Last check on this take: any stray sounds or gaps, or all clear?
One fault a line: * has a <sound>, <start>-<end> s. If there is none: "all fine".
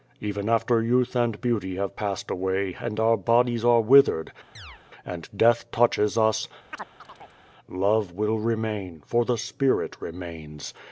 * has a chirp, 4.5-4.8 s
* has a chirp, 6.7-7.4 s